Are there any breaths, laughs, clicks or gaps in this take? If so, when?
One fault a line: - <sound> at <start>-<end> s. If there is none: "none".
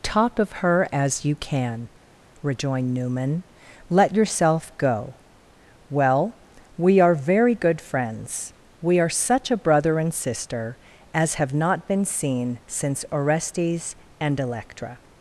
none